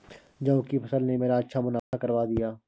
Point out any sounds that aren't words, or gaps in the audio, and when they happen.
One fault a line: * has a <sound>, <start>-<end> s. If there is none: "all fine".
* has a dropout, 1.8-1.9 s